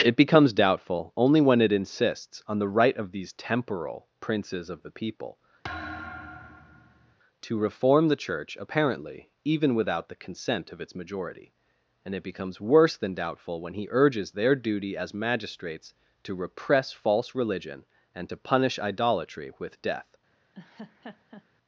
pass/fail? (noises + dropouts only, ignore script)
fail